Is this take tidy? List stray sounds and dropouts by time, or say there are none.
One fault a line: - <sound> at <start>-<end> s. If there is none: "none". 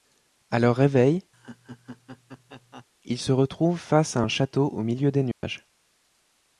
- laugh at 1.3-2.9 s
- dropout at 5.3-5.4 s